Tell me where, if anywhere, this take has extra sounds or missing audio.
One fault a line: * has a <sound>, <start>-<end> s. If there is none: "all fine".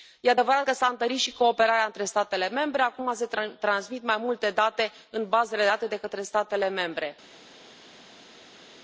all fine